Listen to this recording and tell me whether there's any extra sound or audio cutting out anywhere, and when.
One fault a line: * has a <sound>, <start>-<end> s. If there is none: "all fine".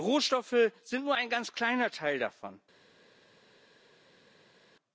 all fine